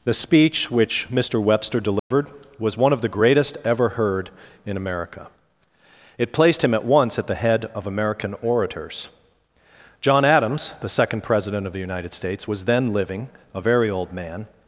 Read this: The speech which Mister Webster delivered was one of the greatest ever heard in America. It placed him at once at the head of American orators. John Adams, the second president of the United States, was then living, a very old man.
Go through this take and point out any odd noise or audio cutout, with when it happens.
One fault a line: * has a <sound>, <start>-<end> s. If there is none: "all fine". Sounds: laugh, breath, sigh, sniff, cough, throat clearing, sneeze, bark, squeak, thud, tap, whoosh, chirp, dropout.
* has a dropout, 2.0-2.1 s